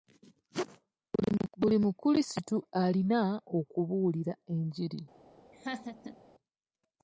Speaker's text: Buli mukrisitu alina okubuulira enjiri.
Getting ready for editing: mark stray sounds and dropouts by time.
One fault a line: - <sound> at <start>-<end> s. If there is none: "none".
- laugh at 5.5-6.2 s